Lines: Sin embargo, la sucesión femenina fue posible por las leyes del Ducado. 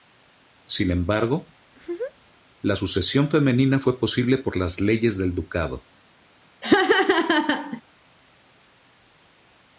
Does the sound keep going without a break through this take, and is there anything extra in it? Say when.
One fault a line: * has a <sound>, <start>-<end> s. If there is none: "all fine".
* has a laugh, 1.7-2.4 s
* has a laugh, 6.6-7.8 s